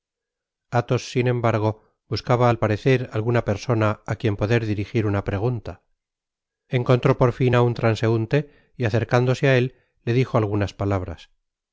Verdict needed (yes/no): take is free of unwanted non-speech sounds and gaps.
yes